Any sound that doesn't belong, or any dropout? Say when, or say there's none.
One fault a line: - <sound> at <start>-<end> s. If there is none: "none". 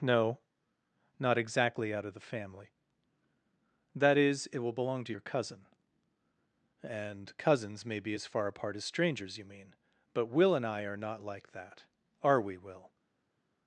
none